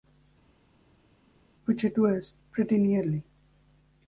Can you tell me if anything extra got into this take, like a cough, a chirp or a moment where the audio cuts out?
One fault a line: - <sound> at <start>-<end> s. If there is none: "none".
none